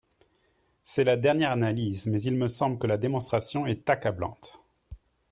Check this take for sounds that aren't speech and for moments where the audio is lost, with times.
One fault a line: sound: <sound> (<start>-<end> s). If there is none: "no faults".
no faults